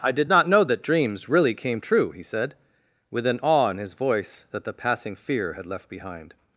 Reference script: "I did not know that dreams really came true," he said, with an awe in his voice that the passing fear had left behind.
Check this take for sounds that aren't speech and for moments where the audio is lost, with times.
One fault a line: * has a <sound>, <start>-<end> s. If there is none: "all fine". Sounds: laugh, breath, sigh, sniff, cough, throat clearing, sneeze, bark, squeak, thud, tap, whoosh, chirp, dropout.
all fine